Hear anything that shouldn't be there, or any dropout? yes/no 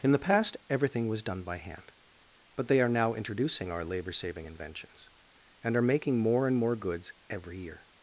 no